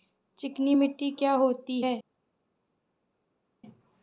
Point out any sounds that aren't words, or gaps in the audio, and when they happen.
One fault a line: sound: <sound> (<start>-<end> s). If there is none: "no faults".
no faults